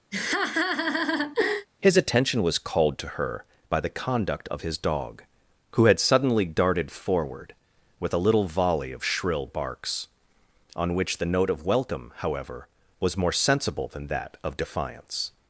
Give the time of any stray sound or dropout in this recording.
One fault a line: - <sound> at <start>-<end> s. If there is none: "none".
- laugh at 0.1-1.7 s